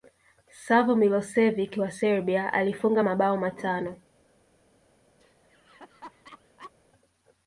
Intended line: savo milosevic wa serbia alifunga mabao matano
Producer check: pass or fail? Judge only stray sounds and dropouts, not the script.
fail